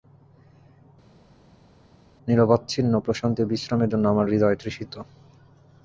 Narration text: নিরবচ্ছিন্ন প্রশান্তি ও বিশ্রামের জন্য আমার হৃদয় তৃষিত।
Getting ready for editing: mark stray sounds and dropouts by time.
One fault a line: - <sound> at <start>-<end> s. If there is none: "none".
none